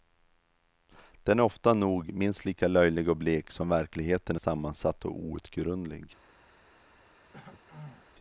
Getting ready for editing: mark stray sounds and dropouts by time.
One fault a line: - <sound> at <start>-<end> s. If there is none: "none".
- throat clearing at 7.3-8.1 s